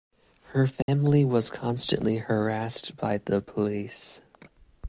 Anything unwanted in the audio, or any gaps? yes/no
yes